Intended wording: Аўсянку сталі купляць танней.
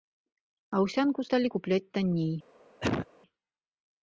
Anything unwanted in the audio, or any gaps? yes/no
yes